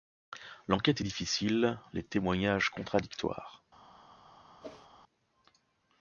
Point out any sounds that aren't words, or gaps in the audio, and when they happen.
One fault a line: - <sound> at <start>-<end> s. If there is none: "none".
- whoosh at 4.6-4.9 s